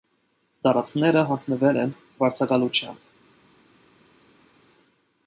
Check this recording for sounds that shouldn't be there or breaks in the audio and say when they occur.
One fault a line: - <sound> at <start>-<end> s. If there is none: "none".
none